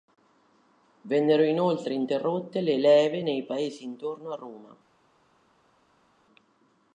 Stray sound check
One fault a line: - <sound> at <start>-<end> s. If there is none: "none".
none